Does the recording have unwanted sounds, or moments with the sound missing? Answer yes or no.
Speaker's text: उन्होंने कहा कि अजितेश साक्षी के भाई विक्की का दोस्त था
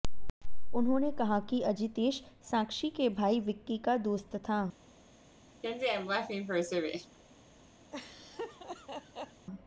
yes